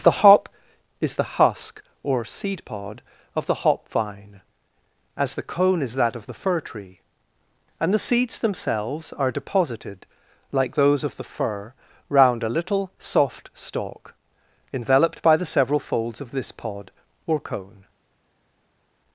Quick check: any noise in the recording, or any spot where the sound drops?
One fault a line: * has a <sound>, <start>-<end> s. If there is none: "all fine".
all fine